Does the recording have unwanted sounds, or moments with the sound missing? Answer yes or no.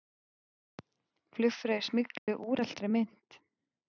yes